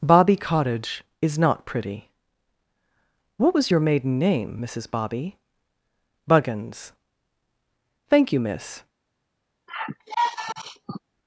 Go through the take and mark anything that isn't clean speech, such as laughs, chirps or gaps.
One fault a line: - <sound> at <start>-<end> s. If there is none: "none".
- sigh at 9.7-11.0 s